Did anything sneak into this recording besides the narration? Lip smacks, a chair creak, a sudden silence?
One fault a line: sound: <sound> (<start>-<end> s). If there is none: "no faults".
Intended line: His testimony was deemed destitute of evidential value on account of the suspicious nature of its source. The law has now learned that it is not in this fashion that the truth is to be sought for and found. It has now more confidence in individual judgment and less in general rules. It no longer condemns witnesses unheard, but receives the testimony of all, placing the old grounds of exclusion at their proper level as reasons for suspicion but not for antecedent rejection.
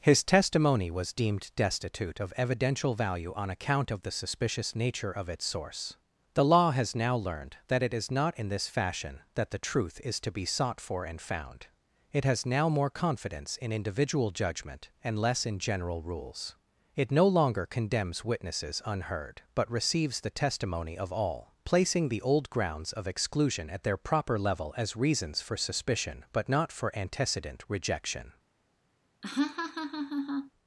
sound: laugh (29.2-30.5 s)